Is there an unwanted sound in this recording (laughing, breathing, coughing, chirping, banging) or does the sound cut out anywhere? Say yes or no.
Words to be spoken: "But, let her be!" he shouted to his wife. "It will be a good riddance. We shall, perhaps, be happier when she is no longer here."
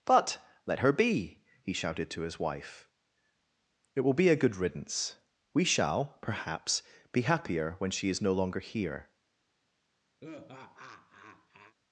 yes